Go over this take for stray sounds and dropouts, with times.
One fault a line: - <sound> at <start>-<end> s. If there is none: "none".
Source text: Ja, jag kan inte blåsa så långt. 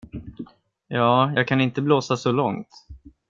none